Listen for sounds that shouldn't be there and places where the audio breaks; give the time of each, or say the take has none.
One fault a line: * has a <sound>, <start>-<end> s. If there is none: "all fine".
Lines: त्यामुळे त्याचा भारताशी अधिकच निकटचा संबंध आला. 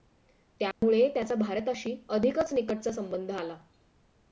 * has a dropout, 0.7-0.8 s